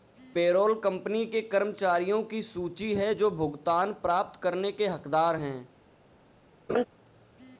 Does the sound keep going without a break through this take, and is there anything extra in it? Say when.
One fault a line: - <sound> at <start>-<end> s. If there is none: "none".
- laugh at 6.7-6.8 s